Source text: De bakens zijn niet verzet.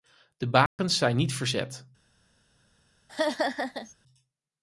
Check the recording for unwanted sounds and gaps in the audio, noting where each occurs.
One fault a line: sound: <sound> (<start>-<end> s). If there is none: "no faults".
sound: dropout (0.7-0.8 s)
sound: laugh (3.1-3.9 s)